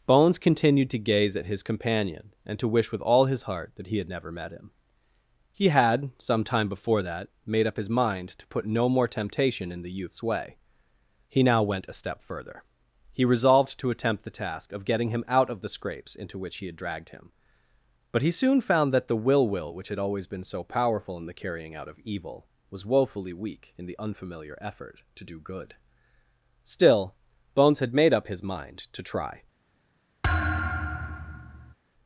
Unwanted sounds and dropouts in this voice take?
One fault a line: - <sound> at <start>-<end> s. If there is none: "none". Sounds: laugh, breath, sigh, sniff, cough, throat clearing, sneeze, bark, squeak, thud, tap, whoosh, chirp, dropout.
- thud at 30.2-31.7 s